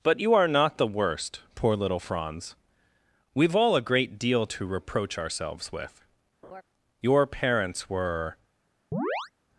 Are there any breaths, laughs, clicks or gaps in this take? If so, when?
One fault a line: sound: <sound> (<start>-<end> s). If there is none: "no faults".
sound: laugh (6.4-6.6 s)
sound: chirp (8.9-9.3 s)